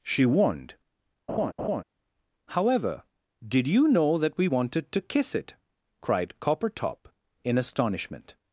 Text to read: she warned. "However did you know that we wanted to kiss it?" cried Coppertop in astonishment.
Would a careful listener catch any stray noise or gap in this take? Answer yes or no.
yes